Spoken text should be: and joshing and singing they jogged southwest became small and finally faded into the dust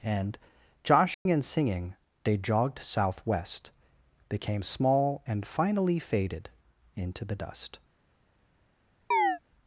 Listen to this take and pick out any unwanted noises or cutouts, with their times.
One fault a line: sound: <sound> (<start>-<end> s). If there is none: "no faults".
sound: dropout (1.1-1.3 s)
sound: chirp (9.1-9.4 s)